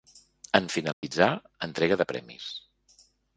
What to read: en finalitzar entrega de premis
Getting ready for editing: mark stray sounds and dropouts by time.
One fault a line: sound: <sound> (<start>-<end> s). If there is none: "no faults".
sound: dropout (0.9-1.0 s)